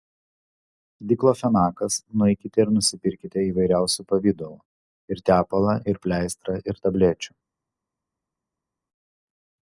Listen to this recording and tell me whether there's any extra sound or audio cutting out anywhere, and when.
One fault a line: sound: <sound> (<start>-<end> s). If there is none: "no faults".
no faults